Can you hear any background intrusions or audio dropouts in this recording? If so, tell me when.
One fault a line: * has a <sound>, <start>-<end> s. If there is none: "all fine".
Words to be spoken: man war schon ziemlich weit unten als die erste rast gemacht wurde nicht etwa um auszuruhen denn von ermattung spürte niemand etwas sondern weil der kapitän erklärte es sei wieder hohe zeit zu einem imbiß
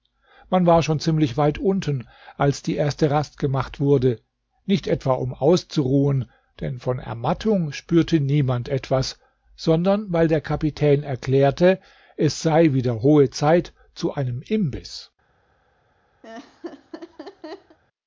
* has a laugh, 16.2-17.8 s